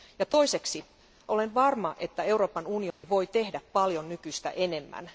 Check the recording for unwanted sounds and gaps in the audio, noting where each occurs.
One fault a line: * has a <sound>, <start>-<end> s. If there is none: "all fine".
* has a dropout, 2.9-3.0 s